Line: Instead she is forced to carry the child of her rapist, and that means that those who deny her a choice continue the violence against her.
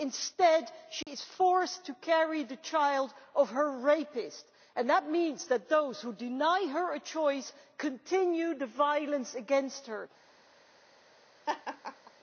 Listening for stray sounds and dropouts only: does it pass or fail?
fail